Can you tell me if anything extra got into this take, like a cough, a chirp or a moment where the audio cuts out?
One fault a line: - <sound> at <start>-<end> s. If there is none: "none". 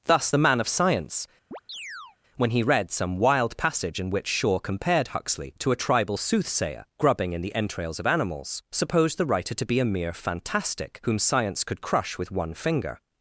- chirp at 1.5-2.2 s